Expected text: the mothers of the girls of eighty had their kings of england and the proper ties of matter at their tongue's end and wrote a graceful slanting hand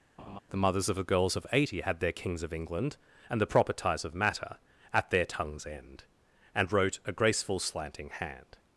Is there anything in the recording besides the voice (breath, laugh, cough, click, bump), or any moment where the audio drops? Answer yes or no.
yes